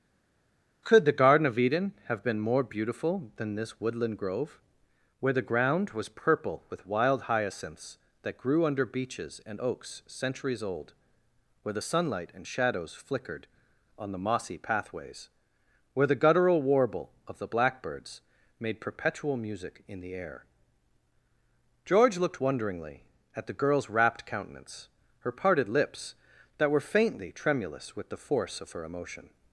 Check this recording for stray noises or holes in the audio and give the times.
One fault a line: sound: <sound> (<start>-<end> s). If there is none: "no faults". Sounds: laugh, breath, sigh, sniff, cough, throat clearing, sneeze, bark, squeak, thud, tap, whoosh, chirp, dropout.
no faults